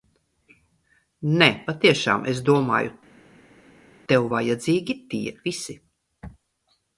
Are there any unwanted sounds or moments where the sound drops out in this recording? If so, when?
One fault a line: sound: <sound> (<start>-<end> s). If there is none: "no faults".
no faults